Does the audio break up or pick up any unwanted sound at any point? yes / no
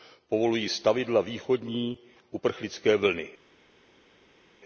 no